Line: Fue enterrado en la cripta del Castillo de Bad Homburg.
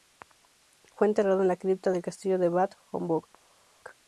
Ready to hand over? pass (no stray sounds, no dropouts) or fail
pass